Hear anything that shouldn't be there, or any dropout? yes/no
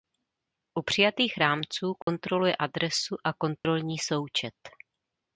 yes